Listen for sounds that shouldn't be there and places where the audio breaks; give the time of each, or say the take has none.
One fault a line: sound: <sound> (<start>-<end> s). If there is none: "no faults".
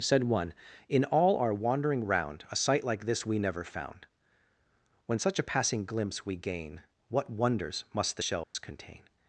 sound: dropout (8.4-8.5 s)